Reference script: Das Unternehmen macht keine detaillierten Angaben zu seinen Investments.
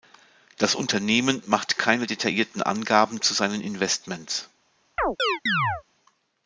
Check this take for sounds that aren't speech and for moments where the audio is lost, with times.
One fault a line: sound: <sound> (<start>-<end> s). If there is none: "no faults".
sound: chirp (5.0-5.8 s)